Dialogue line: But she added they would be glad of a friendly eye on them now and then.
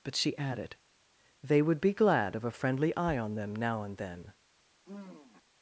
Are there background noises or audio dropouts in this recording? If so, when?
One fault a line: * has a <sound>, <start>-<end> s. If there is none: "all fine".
* has a sigh, 4.8-5.4 s